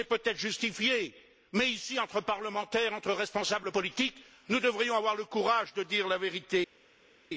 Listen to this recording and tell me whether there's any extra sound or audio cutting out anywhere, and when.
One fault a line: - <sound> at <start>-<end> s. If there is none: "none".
none